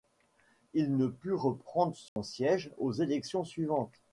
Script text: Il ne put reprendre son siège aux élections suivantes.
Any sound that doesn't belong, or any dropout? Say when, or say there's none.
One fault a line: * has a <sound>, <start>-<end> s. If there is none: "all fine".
* has a dropout, 2.1-2.2 s